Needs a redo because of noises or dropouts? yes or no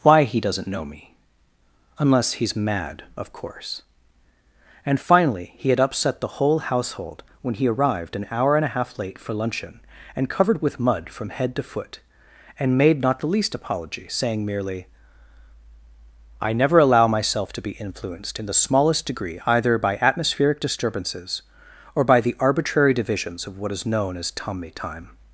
no